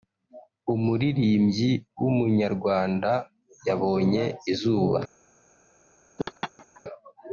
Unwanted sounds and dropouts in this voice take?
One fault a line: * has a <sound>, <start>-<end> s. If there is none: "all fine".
* has a laugh, 6.2-6.8 s